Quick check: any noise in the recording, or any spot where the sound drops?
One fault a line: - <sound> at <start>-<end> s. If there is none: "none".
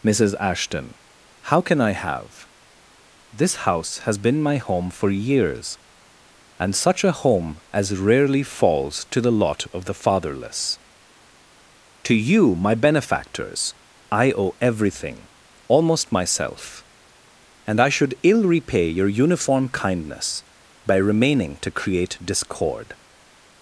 none